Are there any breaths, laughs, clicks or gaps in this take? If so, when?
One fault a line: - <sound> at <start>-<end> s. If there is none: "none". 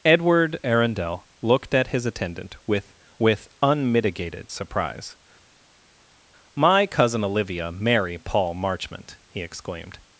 none